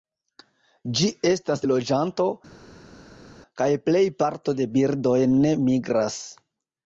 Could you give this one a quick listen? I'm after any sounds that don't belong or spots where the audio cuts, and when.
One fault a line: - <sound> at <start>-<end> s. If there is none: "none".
none